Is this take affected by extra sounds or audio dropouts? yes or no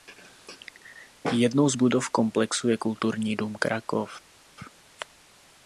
no